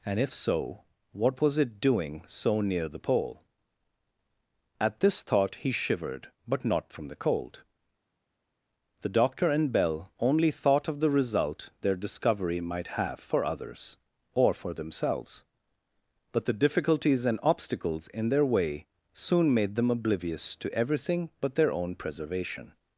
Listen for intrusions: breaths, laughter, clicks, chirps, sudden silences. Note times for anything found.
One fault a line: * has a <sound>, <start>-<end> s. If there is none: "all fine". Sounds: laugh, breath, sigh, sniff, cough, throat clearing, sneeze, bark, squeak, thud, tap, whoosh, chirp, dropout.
all fine